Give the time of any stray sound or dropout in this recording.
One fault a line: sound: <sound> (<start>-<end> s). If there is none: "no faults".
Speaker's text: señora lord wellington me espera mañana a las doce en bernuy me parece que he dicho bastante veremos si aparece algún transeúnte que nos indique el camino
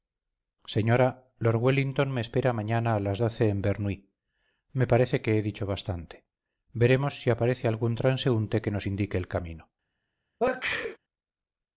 sound: sneeze (10.4-11.0 s)